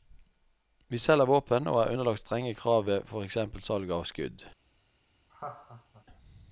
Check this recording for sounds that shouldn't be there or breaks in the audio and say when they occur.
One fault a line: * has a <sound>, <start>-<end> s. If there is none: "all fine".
* has a laugh, 5.3-6.0 s